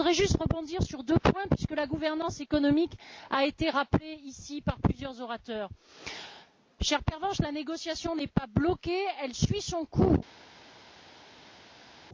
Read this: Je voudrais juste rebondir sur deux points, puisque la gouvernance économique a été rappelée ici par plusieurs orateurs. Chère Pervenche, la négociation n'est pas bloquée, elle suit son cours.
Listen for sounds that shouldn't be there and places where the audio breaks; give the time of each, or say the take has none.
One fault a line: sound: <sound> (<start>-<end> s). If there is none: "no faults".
no faults